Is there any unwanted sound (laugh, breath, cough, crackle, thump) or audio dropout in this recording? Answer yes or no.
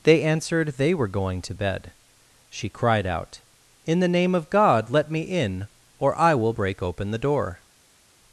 no